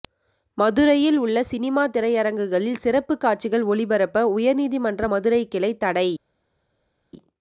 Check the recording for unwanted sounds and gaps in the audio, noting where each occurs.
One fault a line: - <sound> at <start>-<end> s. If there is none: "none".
none